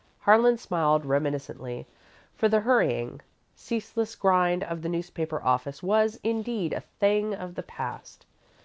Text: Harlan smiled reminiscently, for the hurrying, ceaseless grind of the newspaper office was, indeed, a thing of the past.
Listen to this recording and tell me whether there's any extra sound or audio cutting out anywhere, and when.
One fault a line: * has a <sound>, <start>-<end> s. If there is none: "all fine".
all fine